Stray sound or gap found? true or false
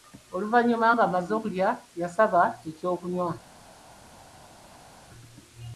false